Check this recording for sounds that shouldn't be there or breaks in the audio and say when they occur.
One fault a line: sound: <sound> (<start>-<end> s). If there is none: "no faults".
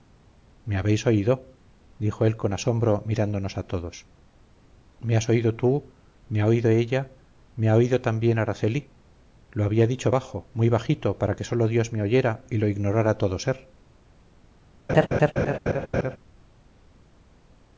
sound: laugh (14.9-16.2 s)